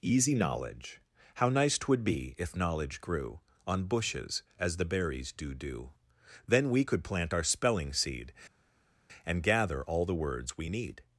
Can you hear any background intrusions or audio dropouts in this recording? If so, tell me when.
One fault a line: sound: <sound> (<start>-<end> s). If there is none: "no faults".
no faults